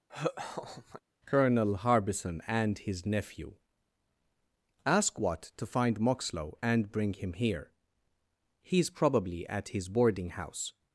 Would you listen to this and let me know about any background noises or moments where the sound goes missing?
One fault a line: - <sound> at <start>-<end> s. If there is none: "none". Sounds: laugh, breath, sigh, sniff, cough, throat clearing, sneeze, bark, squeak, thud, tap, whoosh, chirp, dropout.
- laugh at 0.1-1.0 s